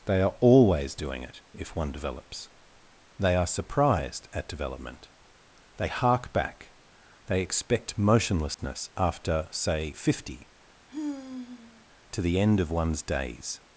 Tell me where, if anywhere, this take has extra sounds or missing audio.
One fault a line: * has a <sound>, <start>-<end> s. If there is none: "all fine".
* has a dropout, 8.5-8.6 s
* has a sigh, 10.9-11.9 s